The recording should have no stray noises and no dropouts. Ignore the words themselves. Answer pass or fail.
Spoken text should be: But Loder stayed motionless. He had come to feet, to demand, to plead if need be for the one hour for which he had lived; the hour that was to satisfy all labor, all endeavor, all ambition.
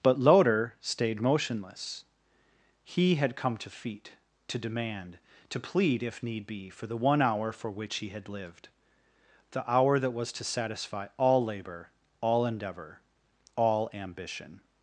pass